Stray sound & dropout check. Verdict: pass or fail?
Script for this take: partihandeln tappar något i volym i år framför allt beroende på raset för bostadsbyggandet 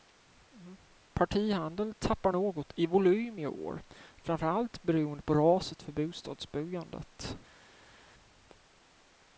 pass